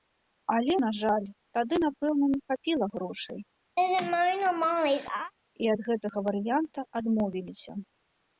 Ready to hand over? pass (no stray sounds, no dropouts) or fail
fail